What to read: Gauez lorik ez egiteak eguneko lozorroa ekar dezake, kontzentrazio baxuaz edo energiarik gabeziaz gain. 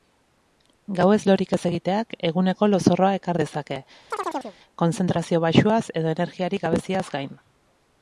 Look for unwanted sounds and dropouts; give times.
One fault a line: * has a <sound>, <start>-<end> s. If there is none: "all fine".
* has a chirp, 4.1-4.6 s